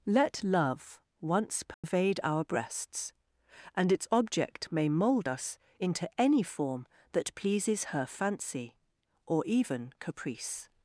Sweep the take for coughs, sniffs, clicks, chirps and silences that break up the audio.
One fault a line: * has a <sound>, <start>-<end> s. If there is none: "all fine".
* has a dropout, 1.7-1.8 s